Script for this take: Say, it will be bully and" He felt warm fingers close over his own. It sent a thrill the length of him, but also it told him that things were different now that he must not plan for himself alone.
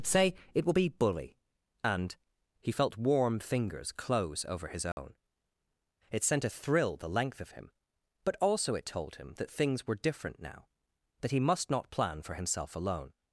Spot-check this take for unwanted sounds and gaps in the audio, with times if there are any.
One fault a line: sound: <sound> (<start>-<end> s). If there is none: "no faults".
sound: dropout (4.9-5.0 s)